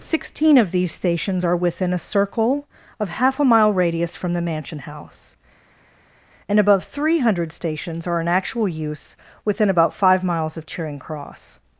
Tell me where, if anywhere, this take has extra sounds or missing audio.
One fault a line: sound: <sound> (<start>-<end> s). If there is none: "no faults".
no faults